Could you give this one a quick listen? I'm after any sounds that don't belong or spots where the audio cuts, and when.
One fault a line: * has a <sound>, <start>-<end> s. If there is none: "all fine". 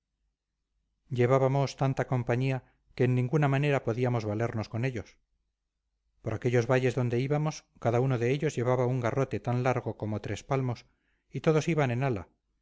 all fine